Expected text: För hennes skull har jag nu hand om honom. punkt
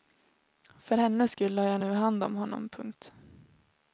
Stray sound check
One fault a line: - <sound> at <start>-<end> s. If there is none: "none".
none